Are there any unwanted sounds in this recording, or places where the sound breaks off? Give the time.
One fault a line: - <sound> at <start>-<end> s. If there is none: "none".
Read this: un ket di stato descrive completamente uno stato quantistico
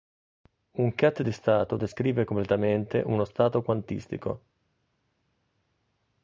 none